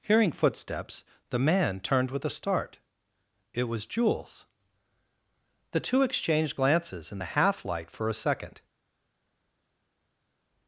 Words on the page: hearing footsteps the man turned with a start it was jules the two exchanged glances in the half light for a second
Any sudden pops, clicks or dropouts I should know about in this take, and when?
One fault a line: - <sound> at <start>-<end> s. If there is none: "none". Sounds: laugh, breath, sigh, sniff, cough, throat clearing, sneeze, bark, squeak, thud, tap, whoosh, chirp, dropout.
none